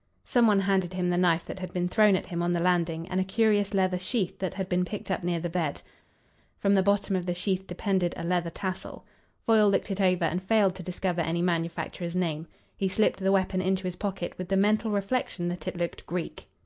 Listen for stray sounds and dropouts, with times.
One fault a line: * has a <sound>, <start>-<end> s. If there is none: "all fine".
all fine